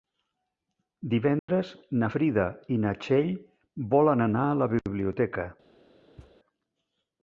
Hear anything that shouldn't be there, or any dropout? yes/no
yes